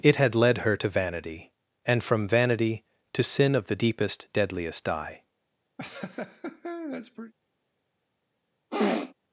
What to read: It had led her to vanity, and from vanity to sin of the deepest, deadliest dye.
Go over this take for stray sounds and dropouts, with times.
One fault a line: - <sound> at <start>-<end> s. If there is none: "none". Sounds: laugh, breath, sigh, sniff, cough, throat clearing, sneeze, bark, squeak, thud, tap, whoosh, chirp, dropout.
- laugh at 5.8-7.3 s
- sniff at 8.7-9.1 s